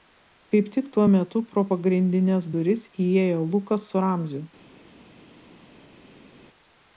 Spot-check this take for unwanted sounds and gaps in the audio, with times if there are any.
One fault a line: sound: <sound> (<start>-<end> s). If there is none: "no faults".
no faults